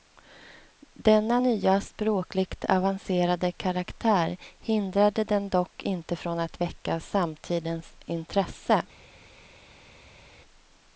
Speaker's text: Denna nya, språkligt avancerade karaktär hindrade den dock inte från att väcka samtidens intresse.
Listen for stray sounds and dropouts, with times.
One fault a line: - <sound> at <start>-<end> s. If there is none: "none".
none